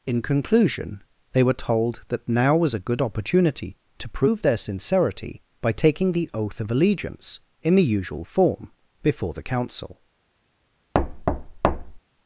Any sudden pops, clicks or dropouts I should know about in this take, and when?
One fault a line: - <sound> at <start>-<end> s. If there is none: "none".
- thud at 10.9-12.0 s